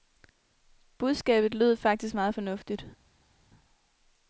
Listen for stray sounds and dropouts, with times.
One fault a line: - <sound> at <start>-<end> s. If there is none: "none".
none